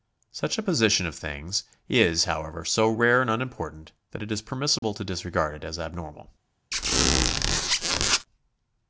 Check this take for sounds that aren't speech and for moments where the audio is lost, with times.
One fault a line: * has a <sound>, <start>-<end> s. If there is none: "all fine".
* has a dropout, 4.8-4.8 s
* has a squeak, 6.7-8.3 s